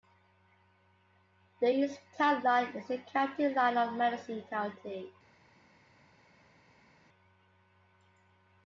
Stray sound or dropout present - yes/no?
no